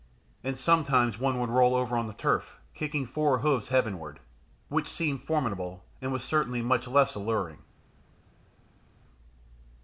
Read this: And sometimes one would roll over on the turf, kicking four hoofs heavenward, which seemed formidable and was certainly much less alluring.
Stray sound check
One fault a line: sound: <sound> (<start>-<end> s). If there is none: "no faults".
no faults